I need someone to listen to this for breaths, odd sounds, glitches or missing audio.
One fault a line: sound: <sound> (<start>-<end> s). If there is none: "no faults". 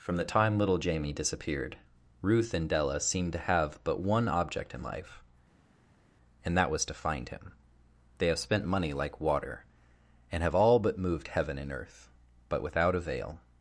no faults